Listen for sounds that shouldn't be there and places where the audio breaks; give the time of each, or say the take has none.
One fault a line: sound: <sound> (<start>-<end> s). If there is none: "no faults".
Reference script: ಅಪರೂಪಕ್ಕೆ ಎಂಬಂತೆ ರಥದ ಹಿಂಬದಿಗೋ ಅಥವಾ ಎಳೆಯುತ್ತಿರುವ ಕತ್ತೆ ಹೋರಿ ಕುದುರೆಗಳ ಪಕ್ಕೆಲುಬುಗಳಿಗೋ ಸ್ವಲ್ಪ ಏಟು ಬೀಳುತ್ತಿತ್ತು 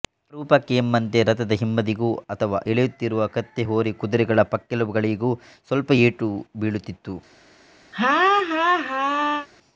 sound: laugh (7.9-9.5 s)